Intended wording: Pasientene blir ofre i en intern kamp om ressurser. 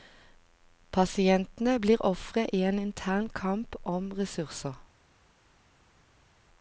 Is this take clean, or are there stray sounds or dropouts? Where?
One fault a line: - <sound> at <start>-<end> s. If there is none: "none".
none